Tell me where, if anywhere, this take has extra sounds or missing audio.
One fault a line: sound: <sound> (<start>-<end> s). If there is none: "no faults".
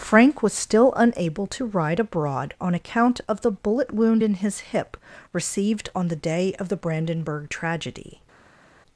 no faults